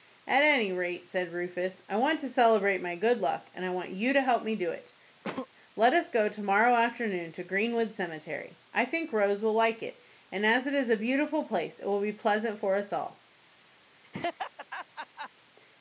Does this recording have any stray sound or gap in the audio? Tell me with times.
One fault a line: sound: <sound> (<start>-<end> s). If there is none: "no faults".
sound: sneeze (5.2-5.5 s)
sound: laugh (14.0-15.3 s)